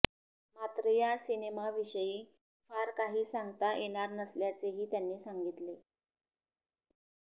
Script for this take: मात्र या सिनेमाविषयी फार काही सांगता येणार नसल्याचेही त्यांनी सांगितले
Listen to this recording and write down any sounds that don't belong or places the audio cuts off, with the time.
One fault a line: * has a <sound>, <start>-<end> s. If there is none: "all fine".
all fine